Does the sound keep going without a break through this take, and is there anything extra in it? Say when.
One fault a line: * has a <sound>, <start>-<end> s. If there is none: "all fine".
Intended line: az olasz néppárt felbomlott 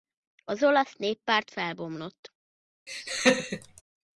* has a laugh, 2.9-3.8 s